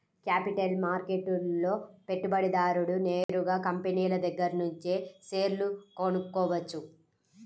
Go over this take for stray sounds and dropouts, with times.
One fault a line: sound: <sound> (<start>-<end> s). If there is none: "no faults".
sound: dropout (3.2-3.3 s)